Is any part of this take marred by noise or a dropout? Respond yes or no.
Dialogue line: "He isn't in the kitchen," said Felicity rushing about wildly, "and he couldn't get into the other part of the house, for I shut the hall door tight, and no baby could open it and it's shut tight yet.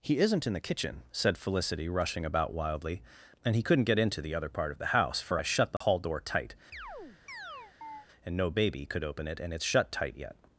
yes